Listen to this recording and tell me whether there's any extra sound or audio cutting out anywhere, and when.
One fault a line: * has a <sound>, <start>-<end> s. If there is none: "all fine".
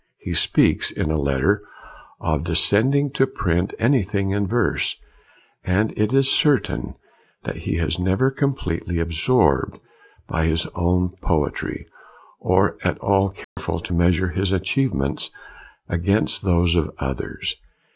* has a dropout, 13.4-13.6 s